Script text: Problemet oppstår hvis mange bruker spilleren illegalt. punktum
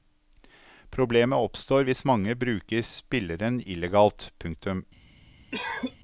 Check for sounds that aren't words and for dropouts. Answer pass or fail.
fail